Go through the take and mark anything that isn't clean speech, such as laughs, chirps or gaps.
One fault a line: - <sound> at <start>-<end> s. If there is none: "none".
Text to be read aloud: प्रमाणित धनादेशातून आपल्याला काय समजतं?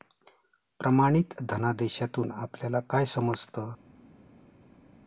none